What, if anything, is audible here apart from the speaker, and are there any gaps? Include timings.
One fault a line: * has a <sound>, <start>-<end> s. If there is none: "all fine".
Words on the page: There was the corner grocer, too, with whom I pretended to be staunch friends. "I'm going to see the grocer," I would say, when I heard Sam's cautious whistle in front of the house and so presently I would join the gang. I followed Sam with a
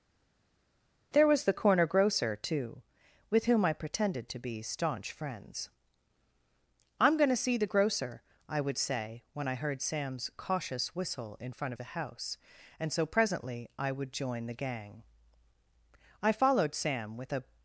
all fine